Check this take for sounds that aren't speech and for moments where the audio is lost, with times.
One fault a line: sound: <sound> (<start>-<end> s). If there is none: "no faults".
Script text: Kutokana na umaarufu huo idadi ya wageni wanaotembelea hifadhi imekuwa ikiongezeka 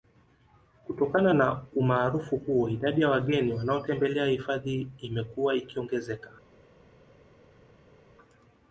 no faults